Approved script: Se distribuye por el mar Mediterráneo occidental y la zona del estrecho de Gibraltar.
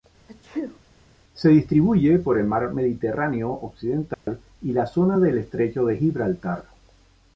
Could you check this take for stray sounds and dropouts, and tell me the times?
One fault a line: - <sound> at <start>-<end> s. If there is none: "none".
- sneeze at 0.3-0.8 s
- dropout at 4.1-4.3 s